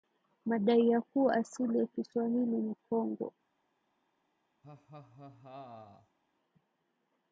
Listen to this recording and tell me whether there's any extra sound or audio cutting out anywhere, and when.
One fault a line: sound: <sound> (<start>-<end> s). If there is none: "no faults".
sound: laugh (4.6-6.2 s)